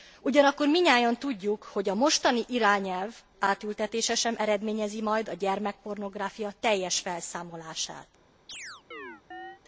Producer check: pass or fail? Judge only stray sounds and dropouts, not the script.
fail